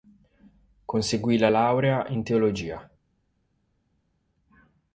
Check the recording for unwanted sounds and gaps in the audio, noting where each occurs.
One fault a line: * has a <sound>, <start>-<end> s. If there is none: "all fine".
all fine